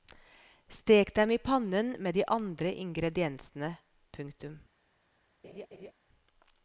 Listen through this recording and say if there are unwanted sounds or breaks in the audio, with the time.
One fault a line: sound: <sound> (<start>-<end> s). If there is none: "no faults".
sound: laugh (5.4-5.9 s)